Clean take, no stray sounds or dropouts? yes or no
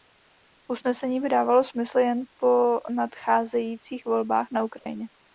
no